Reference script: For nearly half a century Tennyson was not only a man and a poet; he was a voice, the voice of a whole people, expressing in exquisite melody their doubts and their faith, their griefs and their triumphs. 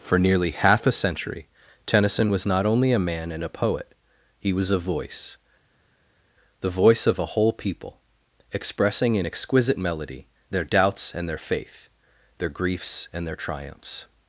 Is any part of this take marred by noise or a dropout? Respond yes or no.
no